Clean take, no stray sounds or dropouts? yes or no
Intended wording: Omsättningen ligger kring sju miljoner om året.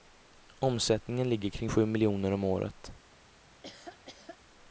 no